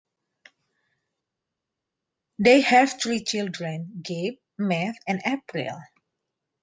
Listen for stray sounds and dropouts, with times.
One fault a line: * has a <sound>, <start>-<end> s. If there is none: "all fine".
all fine